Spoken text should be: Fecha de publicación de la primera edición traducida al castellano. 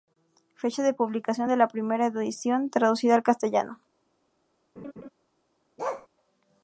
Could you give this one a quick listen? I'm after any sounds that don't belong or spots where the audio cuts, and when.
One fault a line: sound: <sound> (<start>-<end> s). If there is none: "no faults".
sound: laugh (4.8-5.1 s)
sound: bark (5.8-6.1 s)